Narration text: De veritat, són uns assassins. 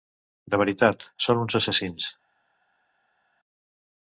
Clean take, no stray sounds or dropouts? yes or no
yes